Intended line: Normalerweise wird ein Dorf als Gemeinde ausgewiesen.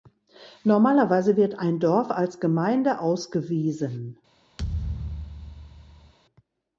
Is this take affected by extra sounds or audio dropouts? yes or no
yes